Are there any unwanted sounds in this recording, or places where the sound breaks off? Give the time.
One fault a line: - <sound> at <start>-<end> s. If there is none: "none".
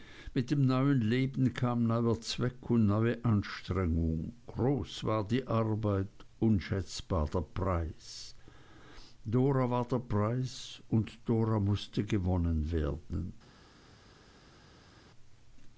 none